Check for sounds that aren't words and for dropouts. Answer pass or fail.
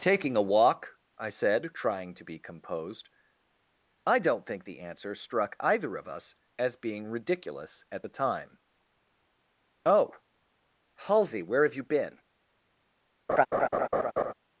fail